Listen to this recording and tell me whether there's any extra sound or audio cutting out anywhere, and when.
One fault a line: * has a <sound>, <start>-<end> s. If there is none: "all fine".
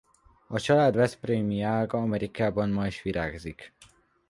all fine